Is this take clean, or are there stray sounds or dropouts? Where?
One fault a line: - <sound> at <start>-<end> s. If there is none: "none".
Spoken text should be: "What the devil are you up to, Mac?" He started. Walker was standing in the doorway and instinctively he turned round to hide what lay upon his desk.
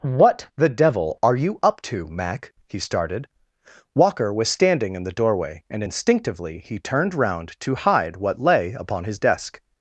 none